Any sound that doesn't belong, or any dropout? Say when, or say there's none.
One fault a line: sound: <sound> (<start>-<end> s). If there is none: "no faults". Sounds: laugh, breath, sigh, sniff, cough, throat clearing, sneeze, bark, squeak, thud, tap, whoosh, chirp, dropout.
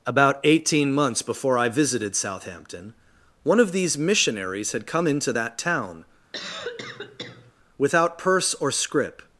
sound: cough (6.3-7.5 s)